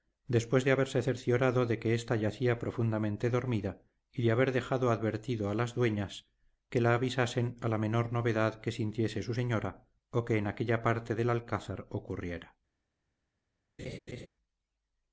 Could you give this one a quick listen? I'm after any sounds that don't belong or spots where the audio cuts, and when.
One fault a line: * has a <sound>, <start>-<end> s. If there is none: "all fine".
* has a laugh, 13.8-14.3 s